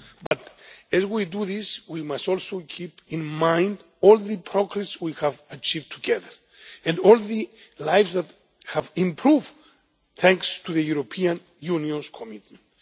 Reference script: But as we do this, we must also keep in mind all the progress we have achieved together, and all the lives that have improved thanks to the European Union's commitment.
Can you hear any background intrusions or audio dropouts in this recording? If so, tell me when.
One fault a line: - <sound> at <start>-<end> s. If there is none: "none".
- dropout at 0.3-0.3 s